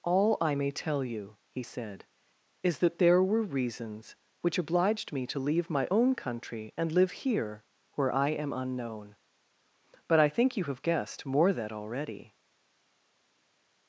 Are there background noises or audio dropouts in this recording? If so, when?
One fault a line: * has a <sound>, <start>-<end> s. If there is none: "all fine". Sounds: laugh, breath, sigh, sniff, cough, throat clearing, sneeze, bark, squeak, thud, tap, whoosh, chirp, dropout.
all fine